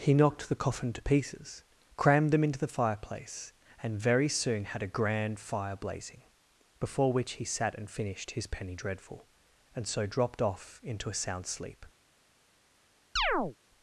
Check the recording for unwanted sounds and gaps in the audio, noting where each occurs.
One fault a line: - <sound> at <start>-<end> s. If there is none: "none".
- chirp at 13.2-13.6 s